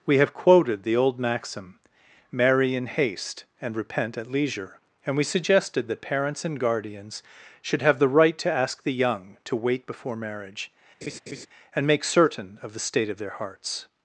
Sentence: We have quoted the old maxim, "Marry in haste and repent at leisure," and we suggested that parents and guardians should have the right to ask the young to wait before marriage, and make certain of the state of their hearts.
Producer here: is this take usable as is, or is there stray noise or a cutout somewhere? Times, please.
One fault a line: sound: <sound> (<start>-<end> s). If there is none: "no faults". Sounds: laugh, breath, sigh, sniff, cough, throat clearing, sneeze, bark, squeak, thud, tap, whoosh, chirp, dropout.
sound: laugh (11.0-11.5 s)